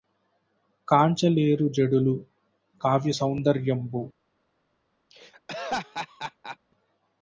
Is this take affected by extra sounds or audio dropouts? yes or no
yes